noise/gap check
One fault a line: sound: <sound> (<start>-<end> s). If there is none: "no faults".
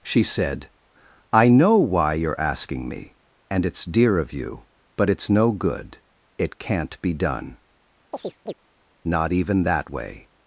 sound: chirp (8.1-8.5 s)